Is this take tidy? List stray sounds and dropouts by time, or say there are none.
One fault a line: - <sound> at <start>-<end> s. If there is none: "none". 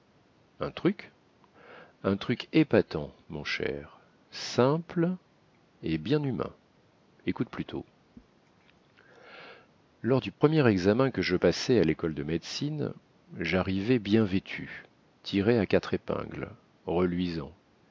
- dropout at 10.3-10.4 s